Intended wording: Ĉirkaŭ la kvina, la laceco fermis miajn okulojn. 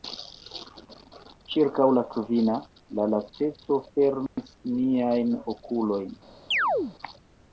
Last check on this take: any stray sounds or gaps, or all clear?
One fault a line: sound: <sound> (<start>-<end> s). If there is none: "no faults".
sound: dropout (4.3-4.4 s)
sound: chirp (6.5-7.0 s)